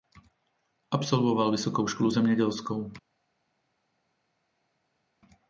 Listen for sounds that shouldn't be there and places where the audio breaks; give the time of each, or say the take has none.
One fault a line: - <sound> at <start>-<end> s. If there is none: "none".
none